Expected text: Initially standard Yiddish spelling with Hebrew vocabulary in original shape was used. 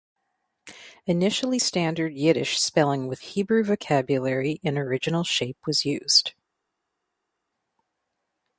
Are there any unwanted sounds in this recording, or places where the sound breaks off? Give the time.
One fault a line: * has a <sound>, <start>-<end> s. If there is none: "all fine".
all fine